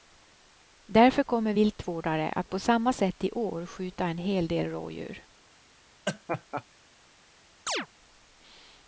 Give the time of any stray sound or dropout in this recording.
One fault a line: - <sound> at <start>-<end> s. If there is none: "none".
- laugh at 6.1-6.6 s
- chirp at 7.7-7.9 s